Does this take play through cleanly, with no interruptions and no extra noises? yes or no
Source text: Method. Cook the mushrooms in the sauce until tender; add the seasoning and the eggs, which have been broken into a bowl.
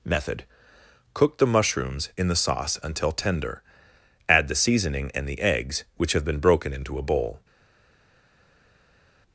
yes